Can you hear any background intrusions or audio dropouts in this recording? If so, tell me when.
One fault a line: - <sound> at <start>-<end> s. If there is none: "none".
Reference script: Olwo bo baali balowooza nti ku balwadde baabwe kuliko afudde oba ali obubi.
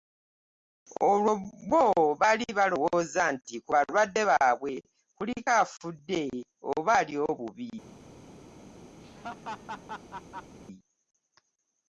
- laugh at 9.0-10.6 s